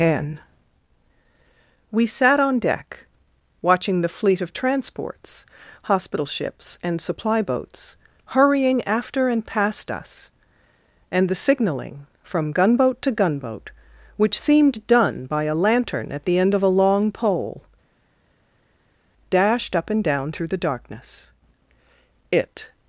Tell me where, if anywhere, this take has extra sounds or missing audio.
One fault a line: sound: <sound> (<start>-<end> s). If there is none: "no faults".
no faults